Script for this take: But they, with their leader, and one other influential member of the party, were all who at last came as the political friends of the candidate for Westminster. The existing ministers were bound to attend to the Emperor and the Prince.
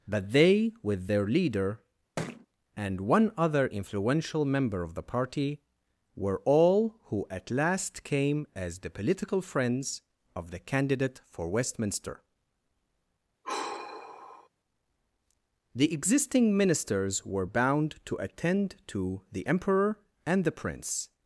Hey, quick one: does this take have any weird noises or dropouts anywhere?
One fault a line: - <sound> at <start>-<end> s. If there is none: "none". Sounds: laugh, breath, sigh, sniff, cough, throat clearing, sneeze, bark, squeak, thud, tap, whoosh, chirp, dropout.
- thud at 2.2-2.5 s
- sigh at 13.4-14.5 s